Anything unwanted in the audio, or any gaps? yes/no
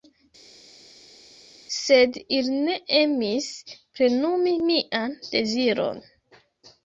no